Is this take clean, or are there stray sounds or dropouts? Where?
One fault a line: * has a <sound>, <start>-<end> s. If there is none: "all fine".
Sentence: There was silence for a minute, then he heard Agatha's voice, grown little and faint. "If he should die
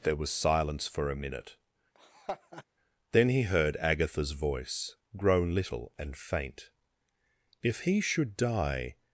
* has a laugh, 1.9-2.6 s